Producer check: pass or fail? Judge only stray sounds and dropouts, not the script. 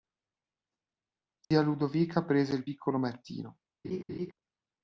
fail